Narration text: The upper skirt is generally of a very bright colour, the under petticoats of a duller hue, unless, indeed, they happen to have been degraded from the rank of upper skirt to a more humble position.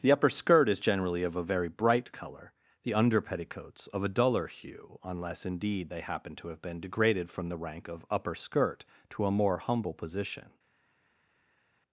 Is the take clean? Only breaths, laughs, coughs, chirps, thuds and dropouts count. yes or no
yes